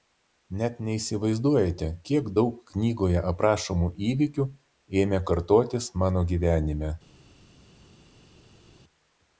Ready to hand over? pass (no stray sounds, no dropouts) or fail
pass